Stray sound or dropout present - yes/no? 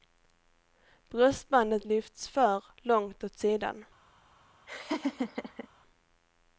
yes